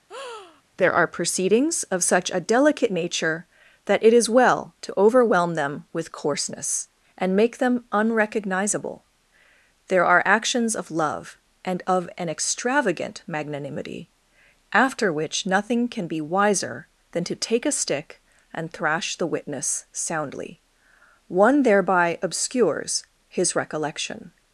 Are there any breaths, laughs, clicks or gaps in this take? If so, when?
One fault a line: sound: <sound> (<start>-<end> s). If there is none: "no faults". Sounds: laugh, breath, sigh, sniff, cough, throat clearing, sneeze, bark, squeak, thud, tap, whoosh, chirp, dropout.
sound: breath (0.1-0.6 s)